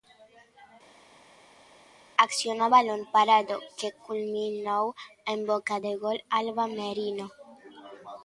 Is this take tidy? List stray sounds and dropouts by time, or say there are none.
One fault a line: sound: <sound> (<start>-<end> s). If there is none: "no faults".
no faults